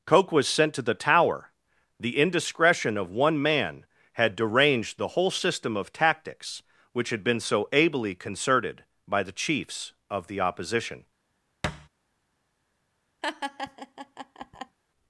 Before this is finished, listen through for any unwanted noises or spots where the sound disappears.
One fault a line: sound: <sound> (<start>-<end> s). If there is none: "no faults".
sound: thud (11.6-11.9 s)
sound: laugh (13.2-14.8 s)